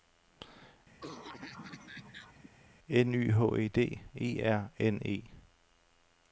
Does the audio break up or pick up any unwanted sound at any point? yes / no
yes